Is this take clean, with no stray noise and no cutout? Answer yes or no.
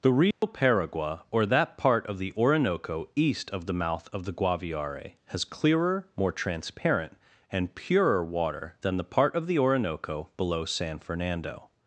no